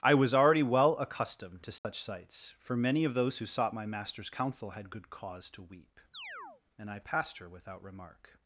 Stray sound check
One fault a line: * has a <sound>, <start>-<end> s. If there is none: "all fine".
* has a dropout, 1.8-1.8 s
* has a chirp, 6.1-6.6 s